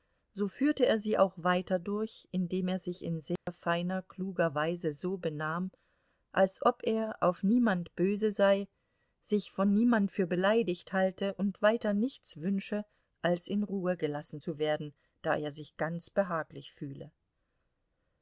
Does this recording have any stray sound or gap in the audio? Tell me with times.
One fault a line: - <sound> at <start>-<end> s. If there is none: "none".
- dropout at 3.4-3.5 s